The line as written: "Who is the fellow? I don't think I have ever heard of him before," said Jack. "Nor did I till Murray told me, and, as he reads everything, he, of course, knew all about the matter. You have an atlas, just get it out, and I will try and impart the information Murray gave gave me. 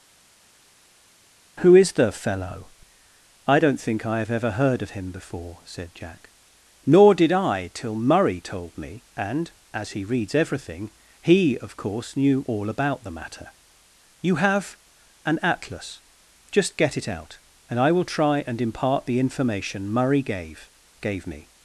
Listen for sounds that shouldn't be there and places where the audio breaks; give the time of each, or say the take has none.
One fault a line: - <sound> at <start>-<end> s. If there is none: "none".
none